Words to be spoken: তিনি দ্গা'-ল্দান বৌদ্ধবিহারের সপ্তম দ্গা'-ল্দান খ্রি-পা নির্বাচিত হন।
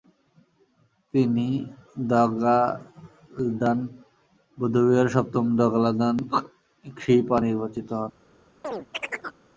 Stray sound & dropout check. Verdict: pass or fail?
fail